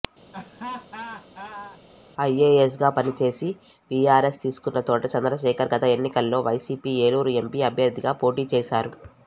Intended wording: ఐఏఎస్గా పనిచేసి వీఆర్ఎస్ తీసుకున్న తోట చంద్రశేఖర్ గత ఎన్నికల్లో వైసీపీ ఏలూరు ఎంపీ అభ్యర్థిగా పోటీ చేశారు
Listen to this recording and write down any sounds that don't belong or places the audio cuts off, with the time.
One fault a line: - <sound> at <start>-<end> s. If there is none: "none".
- laugh at 0.3-1.8 s